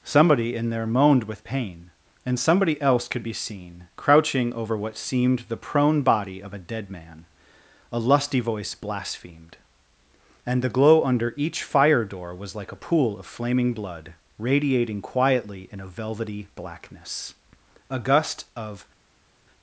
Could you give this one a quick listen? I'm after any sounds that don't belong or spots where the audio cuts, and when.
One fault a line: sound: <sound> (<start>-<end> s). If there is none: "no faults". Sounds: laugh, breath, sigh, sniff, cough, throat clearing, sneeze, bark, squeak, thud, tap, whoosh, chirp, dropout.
no faults